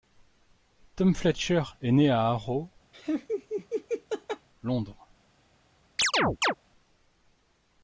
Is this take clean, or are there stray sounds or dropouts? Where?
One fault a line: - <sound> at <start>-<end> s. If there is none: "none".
- laugh at 2.9-4.5 s
- chirp at 6.0-6.5 s